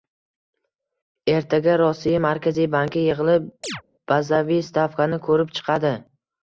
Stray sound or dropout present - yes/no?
yes